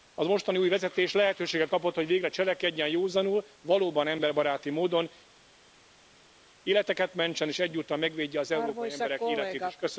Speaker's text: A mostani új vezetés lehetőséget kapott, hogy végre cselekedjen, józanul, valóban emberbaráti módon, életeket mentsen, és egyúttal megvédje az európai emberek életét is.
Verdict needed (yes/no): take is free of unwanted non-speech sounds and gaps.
yes